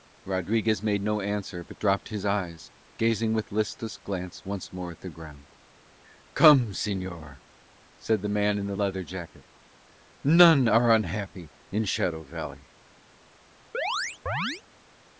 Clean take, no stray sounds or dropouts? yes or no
no